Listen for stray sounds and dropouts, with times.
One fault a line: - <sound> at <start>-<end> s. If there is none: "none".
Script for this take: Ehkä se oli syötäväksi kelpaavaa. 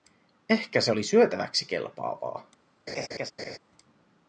- laugh at 2.9-3.6 s